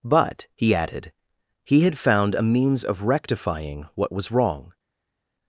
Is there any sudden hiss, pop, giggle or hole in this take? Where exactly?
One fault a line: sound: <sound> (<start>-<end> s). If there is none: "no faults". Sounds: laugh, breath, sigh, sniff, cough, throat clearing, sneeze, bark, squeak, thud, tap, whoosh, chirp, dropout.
no faults